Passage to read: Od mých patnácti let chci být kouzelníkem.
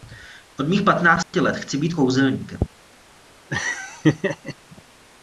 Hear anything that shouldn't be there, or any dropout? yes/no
yes